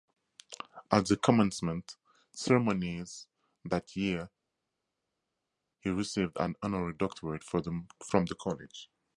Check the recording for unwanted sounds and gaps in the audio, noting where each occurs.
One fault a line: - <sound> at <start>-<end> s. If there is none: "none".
none